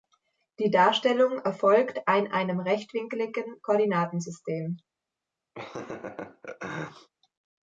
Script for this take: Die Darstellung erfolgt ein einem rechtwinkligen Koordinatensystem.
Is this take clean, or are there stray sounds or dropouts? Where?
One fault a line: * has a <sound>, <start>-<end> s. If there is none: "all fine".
* has a laugh, 5.5-7.1 s